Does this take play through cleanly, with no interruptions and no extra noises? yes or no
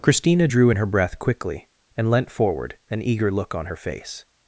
yes